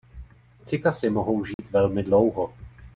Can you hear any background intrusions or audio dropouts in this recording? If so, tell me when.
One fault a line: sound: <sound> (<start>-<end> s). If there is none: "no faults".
sound: dropout (1.5-1.6 s)